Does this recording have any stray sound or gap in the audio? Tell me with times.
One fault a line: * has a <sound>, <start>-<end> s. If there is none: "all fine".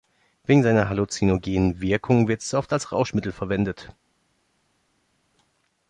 all fine